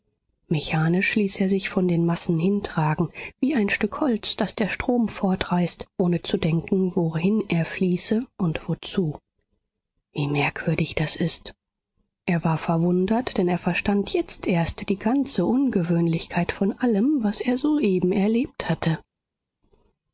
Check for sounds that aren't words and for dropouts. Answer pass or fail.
pass